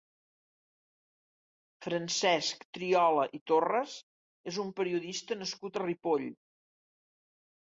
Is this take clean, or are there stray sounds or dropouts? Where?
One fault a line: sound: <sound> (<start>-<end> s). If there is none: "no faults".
no faults